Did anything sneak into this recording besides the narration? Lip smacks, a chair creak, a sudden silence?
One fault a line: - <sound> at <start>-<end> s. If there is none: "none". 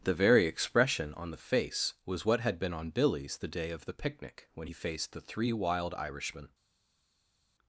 none